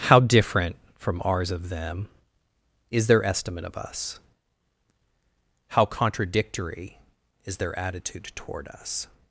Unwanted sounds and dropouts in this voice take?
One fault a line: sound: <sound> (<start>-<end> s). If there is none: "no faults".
no faults